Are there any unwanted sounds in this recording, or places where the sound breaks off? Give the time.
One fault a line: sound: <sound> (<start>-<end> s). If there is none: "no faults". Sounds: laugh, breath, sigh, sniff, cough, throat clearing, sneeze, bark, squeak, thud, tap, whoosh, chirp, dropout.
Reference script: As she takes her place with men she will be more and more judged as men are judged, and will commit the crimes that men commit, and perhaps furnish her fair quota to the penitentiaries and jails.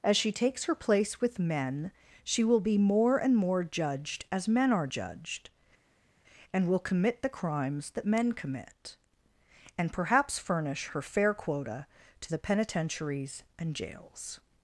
no faults